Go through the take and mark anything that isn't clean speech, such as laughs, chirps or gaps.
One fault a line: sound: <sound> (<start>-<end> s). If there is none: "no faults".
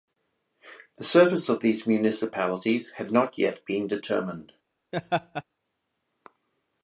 sound: laugh (4.9-5.4 s)